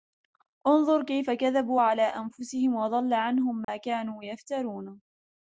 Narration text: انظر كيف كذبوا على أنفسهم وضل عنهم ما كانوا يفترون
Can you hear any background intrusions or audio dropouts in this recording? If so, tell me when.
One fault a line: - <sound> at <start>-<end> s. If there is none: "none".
- dropout at 3.6-3.7 s